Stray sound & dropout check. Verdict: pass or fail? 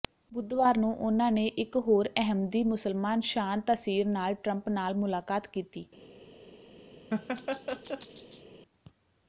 fail